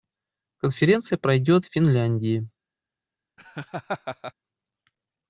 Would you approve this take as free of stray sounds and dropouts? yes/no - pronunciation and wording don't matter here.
no